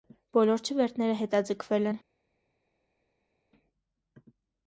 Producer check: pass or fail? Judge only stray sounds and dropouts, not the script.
pass